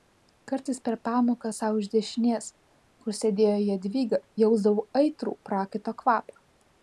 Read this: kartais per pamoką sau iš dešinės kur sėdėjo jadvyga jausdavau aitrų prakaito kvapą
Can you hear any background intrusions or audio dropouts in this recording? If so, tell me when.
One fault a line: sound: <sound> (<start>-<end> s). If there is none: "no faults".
no faults